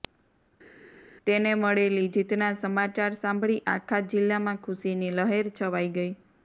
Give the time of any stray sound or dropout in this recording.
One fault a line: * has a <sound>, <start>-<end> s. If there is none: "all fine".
all fine